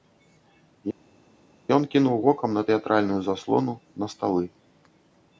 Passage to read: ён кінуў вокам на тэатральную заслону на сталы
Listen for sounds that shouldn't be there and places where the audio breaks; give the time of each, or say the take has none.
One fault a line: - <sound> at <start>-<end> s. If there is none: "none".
none